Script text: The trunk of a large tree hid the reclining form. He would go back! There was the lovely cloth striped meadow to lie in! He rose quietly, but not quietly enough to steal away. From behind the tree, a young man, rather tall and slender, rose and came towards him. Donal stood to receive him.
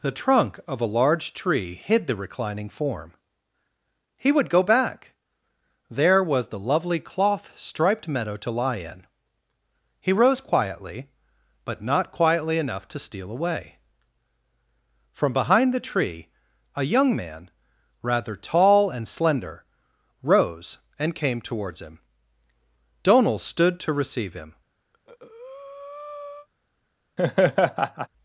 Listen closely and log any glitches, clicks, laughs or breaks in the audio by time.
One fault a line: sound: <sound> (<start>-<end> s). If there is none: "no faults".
sound: breath (24.9-26.5 s)
sound: laugh (27.2-28.1 s)